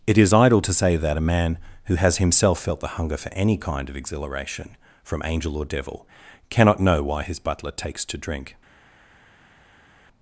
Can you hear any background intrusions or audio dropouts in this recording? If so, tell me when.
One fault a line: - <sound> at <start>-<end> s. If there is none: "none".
none